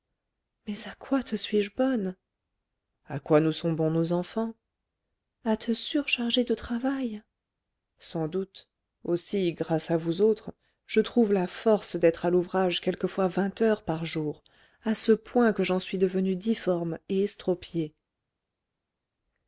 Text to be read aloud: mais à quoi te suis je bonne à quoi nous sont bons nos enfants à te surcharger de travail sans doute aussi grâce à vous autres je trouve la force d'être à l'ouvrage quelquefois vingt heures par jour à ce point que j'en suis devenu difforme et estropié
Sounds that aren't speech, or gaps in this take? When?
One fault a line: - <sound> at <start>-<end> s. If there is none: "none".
none